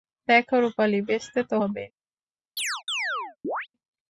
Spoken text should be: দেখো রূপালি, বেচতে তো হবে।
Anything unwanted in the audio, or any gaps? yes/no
yes